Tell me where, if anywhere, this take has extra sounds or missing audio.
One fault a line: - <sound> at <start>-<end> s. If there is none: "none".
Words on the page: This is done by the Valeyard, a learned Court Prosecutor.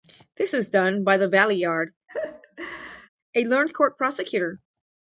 - laugh at 2.1-3.1 s